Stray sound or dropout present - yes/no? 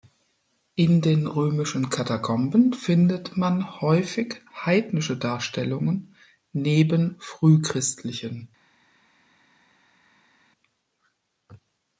no